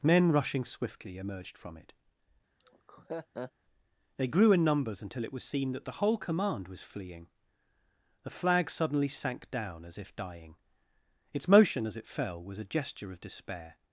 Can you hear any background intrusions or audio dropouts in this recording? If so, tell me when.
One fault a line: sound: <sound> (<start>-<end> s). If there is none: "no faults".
sound: laugh (2.6-3.5 s)